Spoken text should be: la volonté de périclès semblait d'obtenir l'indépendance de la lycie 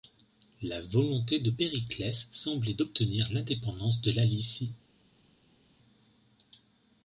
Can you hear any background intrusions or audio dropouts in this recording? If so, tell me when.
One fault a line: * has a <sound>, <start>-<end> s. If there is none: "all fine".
all fine